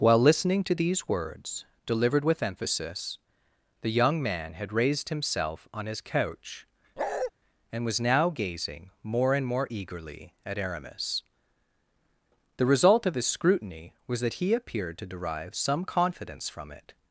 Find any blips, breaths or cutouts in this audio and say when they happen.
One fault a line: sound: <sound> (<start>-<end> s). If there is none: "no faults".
sound: bark (7.0-7.3 s)